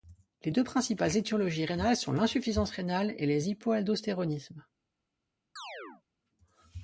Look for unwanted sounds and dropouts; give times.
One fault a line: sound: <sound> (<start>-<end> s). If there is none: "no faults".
sound: chirp (5.6-6.0 s)